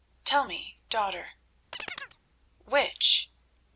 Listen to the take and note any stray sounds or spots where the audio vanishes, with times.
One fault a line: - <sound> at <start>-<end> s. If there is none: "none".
- chirp at 1.7-2.2 s